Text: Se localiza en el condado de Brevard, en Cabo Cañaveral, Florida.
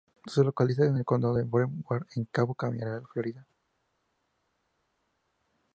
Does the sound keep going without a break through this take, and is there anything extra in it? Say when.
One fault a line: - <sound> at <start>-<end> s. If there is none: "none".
none